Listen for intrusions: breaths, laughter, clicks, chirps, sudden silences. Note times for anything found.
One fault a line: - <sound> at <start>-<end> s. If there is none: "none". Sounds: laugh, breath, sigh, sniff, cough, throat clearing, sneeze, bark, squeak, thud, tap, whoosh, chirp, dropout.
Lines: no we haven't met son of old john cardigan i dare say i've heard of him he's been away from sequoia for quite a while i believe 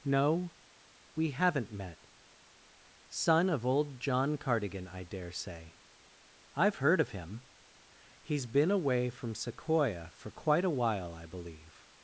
none